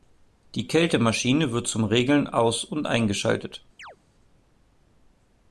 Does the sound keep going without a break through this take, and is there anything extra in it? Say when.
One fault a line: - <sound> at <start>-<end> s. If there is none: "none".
- chirp at 3.8-4.0 s